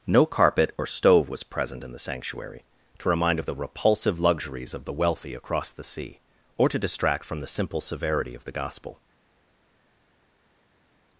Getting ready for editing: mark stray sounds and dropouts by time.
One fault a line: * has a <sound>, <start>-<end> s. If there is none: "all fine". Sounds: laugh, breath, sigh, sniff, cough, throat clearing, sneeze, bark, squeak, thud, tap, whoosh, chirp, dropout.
all fine